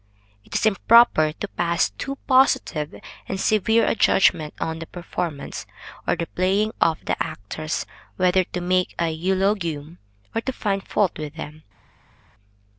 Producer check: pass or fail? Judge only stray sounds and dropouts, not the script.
pass